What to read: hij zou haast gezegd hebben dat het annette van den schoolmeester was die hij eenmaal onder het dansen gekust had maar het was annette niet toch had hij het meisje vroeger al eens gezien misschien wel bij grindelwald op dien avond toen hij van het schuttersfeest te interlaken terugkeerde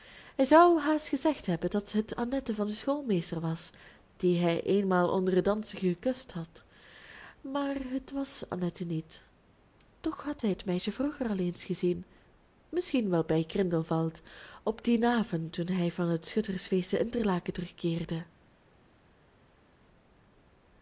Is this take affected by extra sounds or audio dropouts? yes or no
no